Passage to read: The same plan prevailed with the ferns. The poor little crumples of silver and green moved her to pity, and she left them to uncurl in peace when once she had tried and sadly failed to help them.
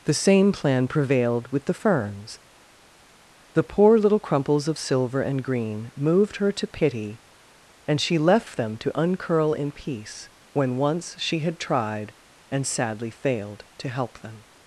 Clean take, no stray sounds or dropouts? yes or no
yes